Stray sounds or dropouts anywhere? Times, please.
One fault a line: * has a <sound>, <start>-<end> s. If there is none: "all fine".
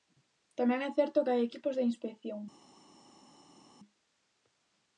all fine